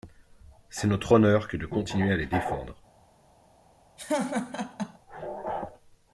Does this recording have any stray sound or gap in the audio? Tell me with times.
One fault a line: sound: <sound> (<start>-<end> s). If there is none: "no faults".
sound: laugh (4.0-5.0 s)